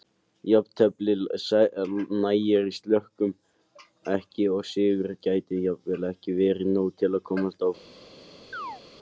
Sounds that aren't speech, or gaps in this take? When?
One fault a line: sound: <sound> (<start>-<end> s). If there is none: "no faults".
sound: chirp (8.5-8.8 s)